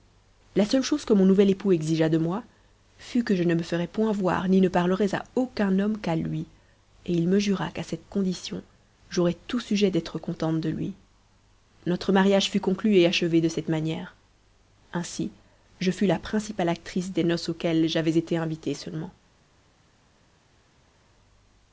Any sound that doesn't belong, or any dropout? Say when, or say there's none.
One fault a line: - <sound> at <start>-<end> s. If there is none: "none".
none